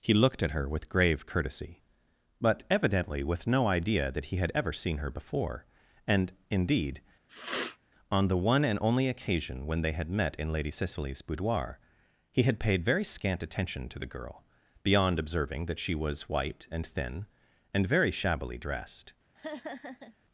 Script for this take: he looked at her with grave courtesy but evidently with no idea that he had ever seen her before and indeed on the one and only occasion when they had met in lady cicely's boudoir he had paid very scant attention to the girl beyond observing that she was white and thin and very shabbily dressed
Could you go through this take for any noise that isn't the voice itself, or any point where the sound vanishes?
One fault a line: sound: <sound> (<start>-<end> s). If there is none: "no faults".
sound: sniff (7.3-7.8 s)
sound: laugh (19.3-20.2 s)